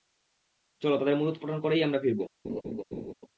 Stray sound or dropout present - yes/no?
yes